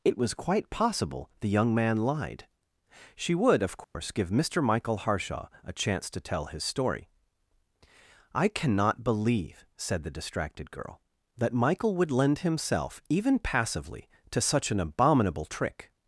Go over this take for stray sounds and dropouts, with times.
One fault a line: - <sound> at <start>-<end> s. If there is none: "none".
- dropout at 3.8-3.9 s